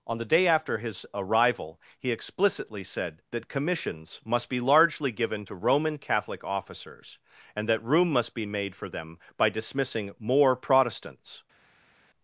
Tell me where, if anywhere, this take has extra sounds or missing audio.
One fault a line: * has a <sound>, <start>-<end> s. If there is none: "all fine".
all fine